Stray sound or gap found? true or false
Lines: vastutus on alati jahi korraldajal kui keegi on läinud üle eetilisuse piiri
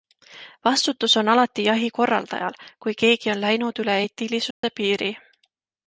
true